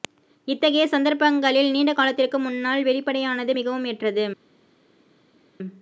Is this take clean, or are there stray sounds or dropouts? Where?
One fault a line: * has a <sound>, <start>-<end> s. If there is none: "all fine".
all fine